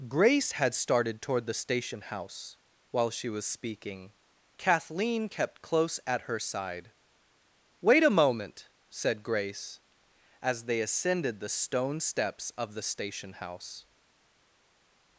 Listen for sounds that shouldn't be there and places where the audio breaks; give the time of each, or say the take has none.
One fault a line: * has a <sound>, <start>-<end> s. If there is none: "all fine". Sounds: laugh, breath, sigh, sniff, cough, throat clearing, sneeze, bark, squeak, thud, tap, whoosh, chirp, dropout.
all fine